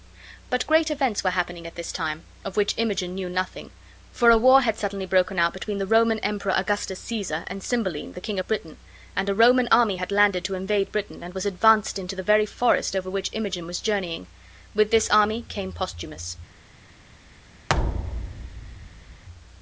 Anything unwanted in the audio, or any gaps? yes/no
yes